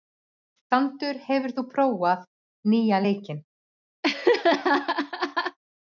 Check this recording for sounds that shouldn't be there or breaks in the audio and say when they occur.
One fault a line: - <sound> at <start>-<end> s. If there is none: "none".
- laugh at 4.0-5.6 s